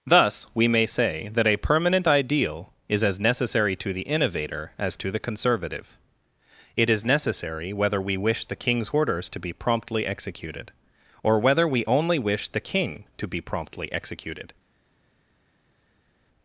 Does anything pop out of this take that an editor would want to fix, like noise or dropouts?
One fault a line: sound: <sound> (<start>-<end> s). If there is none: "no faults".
no faults